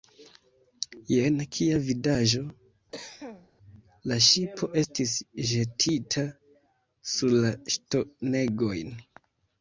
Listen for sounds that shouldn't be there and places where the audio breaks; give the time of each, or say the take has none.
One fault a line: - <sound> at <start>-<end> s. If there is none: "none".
- cough at 2.9-3.5 s